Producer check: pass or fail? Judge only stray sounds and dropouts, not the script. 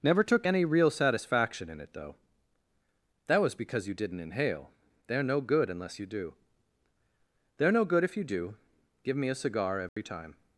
fail